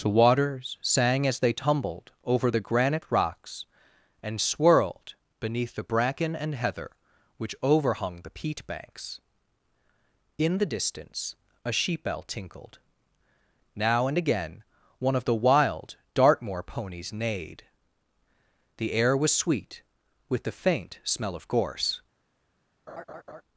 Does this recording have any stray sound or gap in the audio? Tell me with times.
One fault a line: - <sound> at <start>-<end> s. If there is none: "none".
- laugh at 22.9-23.4 s